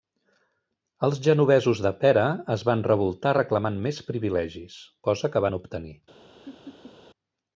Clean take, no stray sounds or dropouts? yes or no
no